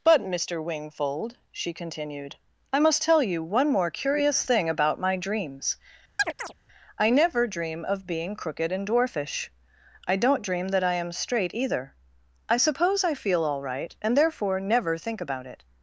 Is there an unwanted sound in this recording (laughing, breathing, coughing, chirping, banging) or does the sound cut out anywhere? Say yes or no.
yes